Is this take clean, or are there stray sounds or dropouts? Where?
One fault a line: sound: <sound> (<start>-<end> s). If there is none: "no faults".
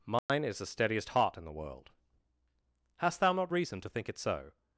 sound: dropout (0.2-0.3 s)